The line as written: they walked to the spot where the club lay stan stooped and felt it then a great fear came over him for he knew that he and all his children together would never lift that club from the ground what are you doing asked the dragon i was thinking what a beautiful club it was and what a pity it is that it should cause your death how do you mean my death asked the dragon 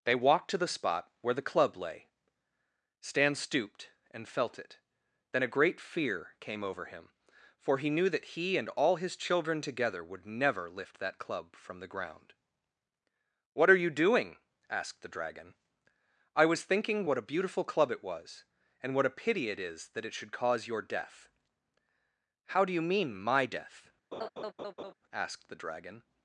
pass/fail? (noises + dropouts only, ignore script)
fail